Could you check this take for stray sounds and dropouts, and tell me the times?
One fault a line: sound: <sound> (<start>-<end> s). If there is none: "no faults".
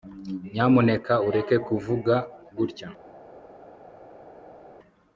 no faults